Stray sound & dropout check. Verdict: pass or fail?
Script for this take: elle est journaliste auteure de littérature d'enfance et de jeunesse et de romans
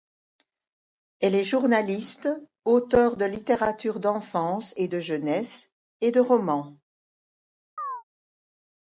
fail